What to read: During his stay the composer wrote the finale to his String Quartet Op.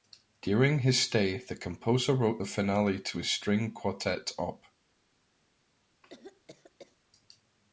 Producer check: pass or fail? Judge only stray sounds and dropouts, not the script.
fail